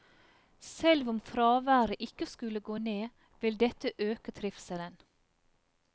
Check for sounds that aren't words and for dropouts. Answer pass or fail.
pass